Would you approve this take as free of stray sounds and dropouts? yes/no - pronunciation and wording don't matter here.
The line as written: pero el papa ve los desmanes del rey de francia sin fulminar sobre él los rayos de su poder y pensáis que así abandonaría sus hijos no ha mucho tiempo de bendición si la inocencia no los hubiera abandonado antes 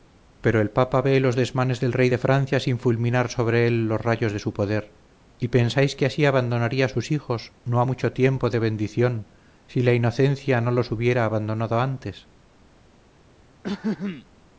no